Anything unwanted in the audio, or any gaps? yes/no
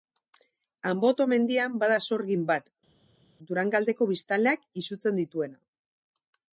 no